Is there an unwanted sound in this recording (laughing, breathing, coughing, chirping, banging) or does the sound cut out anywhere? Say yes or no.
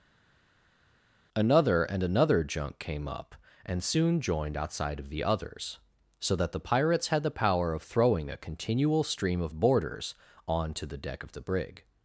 no